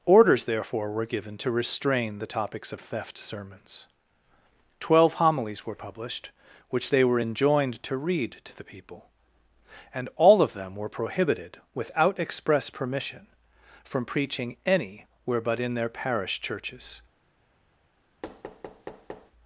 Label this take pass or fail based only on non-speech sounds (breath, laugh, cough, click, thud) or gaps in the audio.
fail